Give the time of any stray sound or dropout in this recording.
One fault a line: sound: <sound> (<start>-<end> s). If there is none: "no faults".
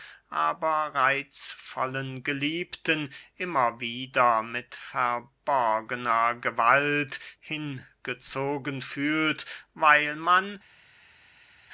no faults